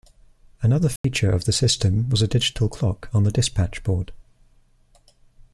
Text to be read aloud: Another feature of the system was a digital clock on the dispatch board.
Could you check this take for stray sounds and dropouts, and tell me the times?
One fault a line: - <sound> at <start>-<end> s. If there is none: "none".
- dropout at 1.0-1.0 s